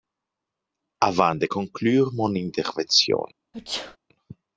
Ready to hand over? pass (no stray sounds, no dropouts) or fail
fail